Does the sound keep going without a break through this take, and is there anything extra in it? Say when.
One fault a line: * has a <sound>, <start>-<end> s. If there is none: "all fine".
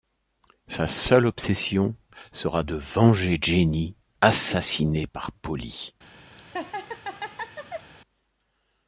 * has a laugh, 6.4-7.9 s